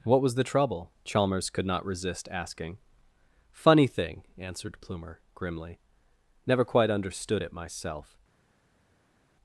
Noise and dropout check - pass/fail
pass